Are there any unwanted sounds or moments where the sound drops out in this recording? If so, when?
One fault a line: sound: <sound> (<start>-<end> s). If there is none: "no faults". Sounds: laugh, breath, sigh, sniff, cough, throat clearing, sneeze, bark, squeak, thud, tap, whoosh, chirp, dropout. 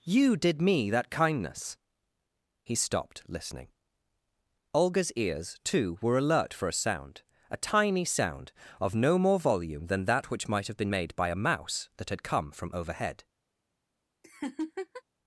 sound: laugh (14.2-15.0 s)